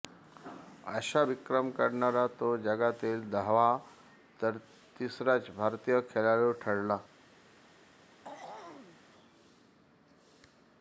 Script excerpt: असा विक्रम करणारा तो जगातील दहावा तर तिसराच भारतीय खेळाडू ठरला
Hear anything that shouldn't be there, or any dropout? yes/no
yes